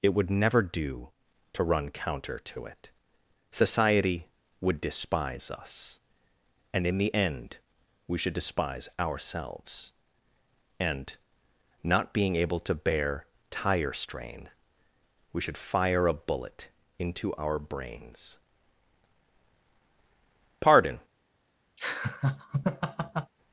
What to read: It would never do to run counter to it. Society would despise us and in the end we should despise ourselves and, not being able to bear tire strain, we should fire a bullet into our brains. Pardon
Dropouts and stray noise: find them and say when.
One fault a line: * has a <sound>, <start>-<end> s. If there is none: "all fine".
* has a laugh, 21.8-23.3 s